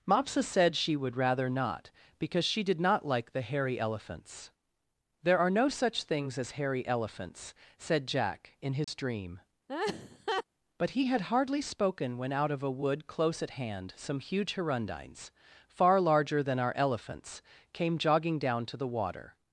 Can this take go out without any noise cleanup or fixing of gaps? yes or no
no